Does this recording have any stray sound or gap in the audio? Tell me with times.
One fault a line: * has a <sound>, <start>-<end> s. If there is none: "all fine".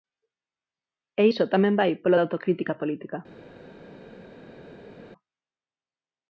all fine